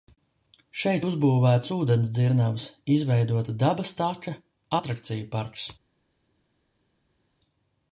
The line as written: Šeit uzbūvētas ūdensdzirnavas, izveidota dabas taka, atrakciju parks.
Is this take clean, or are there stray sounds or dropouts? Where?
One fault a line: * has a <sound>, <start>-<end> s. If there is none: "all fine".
all fine